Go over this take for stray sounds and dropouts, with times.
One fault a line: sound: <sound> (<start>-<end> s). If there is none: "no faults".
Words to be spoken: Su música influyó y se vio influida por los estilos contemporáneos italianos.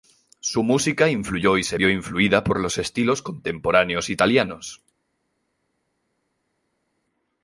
no faults